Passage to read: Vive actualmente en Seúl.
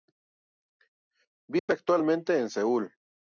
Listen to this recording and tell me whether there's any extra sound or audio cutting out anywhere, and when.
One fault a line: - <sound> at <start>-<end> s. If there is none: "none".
- dropout at 1.6-1.7 s